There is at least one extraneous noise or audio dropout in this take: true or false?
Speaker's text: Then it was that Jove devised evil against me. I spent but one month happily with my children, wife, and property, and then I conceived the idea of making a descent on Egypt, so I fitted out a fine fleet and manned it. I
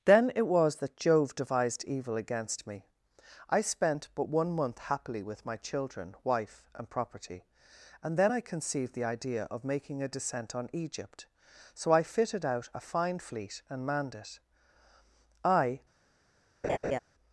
true